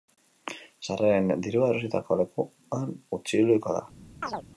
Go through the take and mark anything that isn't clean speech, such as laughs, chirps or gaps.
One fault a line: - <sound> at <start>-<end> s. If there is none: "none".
- chirp at 4.2-4.4 s